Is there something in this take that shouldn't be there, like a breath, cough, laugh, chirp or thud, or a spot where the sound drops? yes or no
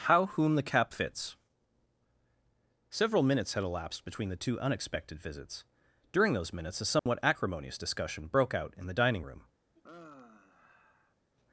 yes